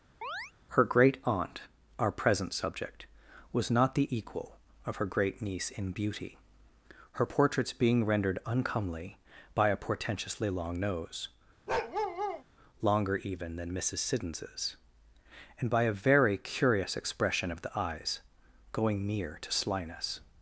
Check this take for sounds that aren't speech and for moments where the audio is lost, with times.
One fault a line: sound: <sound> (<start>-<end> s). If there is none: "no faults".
sound: chirp (0.2-0.5 s)
sound: bark (11.7-12.4 s)